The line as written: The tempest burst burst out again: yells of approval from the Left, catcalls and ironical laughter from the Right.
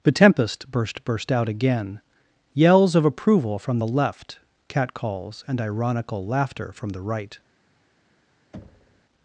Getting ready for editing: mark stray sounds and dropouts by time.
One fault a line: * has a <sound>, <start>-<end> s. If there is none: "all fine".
* has a thud, 8.5-9.1 s